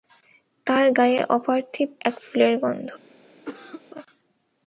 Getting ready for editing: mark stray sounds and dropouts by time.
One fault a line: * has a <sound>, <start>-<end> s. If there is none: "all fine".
* has a cough, 3.5-3.8 s